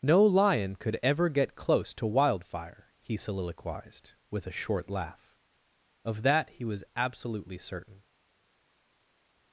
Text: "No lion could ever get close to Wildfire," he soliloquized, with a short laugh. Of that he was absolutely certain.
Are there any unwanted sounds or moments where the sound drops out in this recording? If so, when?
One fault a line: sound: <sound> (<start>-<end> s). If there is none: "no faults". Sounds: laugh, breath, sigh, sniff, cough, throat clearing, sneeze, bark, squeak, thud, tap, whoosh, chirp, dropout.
no faults